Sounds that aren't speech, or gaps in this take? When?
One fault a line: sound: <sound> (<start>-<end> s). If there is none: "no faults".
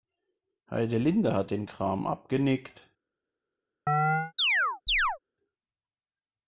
sound: chirp (3.9-5.2 s)